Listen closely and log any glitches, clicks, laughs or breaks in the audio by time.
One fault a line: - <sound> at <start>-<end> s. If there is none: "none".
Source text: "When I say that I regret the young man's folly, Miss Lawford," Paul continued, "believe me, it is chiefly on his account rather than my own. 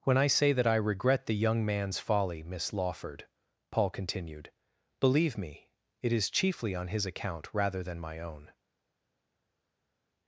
none